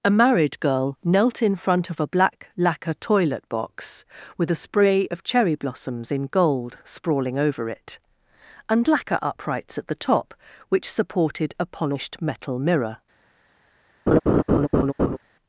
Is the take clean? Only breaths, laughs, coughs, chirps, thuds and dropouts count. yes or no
no